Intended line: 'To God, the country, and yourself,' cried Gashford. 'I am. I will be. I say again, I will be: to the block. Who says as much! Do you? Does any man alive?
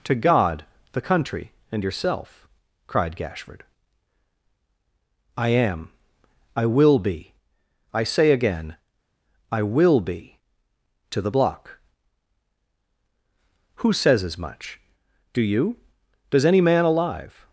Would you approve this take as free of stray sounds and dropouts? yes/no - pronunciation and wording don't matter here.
yes